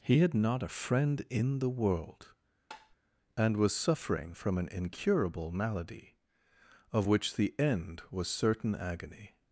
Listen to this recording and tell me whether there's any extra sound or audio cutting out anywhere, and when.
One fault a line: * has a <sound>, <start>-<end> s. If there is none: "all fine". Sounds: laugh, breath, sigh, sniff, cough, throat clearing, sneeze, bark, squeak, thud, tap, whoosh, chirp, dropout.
* has a tap, 2.7-3.0 s